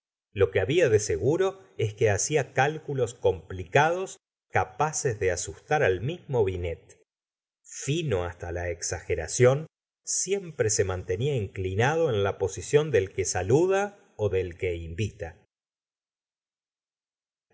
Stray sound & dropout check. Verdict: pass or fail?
pass